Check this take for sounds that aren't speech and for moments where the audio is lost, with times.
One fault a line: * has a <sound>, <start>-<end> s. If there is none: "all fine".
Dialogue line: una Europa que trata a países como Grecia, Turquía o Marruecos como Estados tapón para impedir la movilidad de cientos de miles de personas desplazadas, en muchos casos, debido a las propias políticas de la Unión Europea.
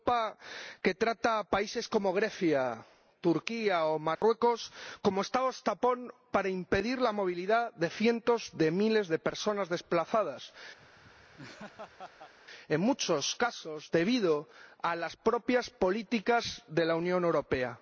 * has a dropout, 4.2-4.2 s
* has a laugh, 10.8-12.3 s